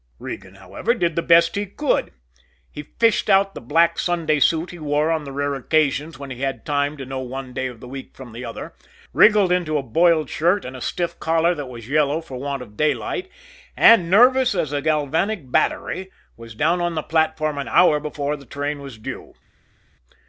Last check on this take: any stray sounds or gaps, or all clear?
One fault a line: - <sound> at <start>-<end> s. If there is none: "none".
none